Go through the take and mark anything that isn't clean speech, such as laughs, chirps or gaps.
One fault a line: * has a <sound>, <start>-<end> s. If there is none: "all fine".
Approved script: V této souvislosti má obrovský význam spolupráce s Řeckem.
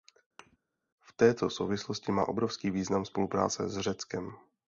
* has a thud, 0.4-0.6 s